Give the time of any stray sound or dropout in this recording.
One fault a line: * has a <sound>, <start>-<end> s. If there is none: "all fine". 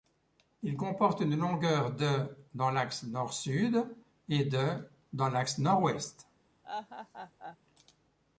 * has a laugh, 6.6-7.6 s